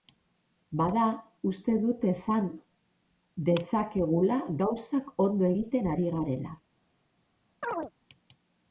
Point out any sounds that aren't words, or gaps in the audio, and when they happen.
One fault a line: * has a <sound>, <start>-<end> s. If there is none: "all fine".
* has a chirp, 7.6-7.9 s